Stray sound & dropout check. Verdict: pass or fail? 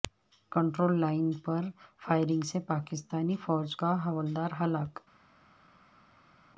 pass